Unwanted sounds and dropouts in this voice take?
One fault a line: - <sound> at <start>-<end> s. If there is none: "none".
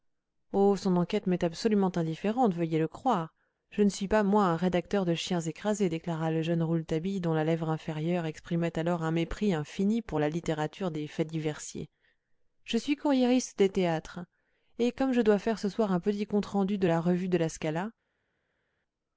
none